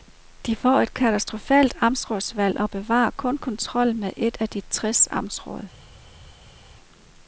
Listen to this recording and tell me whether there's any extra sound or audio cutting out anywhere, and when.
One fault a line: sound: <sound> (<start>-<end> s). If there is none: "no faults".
no faults